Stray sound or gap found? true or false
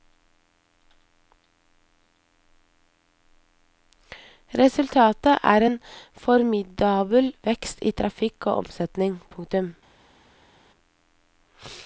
false